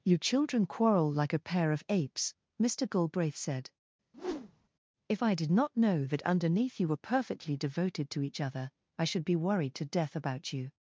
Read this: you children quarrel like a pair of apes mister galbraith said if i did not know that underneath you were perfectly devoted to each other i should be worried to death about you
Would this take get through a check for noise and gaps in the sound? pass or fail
fail